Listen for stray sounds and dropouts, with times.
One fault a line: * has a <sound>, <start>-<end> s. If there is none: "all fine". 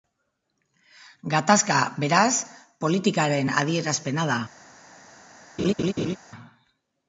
* has a laugh, 5.6-6.2 s